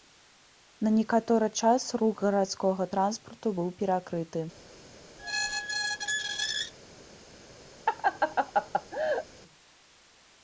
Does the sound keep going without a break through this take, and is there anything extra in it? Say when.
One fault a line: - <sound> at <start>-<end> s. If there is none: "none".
- squeak at 5.2-6.7 s
- laugh at 7.9-9.3 s